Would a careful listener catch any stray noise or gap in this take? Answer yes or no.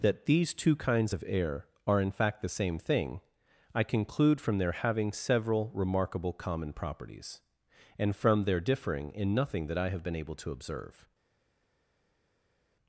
no